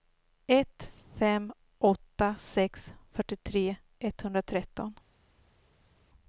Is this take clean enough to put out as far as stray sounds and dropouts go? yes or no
yes